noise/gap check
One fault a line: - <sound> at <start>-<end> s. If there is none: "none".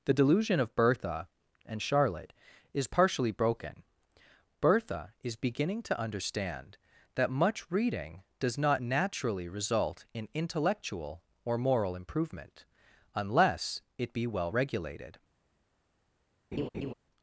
- laugh at 16.5-16.9 s